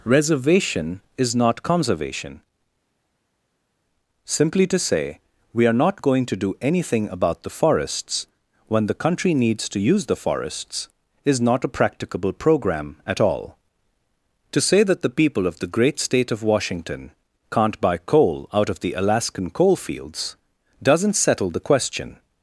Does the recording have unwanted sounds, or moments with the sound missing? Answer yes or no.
no